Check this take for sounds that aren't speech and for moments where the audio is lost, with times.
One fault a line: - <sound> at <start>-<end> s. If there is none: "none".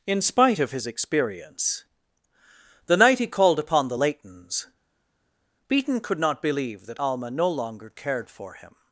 none